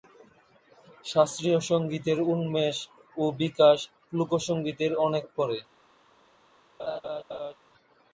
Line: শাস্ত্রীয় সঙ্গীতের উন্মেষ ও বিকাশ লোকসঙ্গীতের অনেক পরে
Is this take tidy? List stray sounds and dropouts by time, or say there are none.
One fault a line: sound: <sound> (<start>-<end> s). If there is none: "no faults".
sound: laugh (6.8-7.5 s)